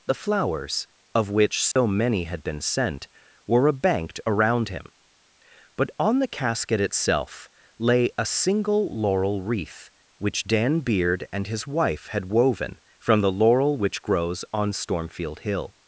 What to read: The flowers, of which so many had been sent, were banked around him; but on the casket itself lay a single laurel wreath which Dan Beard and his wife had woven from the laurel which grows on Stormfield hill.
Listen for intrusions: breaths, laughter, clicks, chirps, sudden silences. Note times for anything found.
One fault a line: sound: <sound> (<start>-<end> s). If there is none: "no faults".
sound: dropout (1.7-1.8 s)